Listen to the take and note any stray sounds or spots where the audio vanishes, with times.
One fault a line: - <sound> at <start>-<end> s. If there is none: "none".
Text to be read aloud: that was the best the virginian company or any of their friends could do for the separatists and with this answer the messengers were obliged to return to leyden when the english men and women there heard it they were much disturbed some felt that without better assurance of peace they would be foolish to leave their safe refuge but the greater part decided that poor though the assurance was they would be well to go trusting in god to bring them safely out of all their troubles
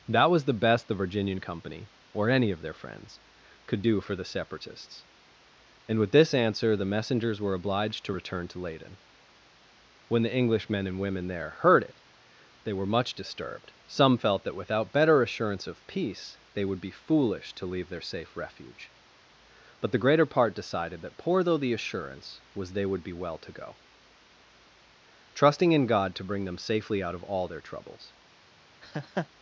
- laugh at 28.8-29.3 s